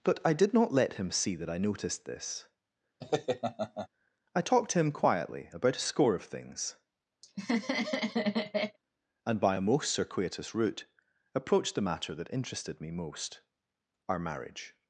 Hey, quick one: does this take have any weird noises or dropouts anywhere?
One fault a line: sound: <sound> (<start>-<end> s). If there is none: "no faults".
sound: laugh (3.0-3.9 s)
sound: laugh (7.2-8.8 s)